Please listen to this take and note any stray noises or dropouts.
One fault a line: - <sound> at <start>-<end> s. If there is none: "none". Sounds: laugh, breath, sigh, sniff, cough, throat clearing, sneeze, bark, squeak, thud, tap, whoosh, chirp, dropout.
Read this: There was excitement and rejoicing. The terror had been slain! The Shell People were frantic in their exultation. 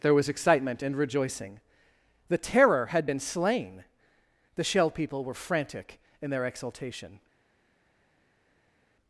none